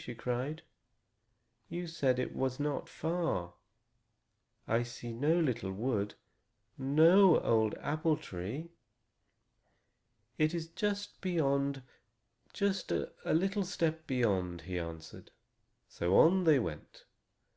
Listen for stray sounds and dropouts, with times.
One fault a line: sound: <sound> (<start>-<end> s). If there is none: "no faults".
no faults